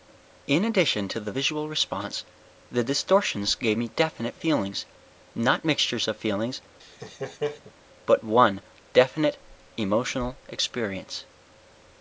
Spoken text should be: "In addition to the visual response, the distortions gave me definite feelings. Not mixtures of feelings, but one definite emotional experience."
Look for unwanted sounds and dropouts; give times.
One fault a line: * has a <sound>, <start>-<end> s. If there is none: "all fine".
* has a laugh, 6.8-7.7 s